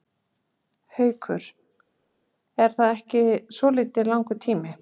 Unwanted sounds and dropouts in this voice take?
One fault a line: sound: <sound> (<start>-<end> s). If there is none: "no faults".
no faults